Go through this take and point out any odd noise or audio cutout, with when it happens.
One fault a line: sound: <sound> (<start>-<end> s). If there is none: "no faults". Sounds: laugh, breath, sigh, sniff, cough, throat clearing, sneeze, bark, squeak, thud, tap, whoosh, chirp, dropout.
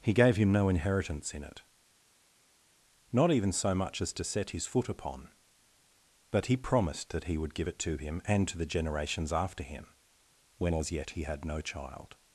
no faults